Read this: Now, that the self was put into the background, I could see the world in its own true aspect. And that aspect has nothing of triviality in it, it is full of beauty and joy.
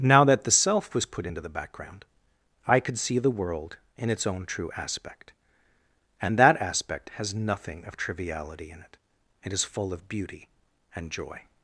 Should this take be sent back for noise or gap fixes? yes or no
no